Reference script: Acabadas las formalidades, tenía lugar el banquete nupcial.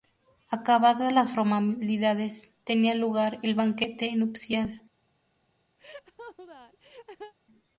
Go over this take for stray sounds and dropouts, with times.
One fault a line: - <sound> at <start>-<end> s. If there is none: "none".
- laugh at 5.8-7.3 s